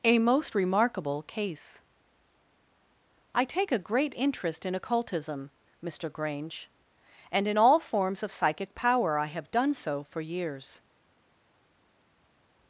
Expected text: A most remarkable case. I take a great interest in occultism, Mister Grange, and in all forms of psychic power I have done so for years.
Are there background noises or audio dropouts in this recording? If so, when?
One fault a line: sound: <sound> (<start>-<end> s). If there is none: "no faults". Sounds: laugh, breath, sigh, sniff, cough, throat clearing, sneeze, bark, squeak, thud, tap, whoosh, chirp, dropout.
no faults